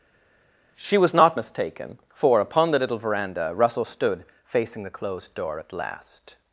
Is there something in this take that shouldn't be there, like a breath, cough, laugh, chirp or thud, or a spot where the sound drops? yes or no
no